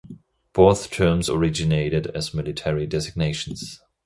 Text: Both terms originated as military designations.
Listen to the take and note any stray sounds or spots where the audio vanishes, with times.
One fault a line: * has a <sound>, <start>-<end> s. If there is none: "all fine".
all fine